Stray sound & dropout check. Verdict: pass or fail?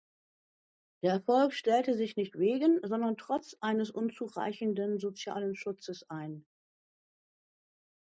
pass